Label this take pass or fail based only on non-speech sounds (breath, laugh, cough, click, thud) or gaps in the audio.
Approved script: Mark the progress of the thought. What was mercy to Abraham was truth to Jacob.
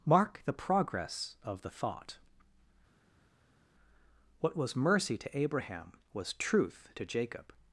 pass